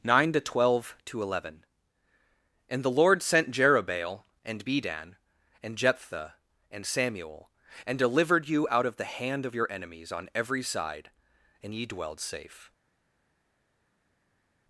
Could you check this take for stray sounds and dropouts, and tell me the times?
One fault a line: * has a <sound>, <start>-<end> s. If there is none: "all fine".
all fine